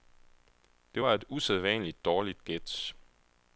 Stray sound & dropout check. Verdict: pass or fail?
pass